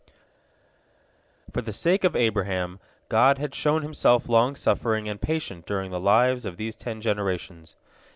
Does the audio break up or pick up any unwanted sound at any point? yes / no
no